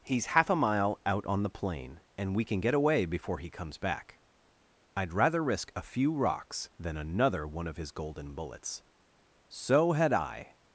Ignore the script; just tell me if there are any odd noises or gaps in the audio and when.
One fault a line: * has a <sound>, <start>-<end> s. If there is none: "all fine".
all fine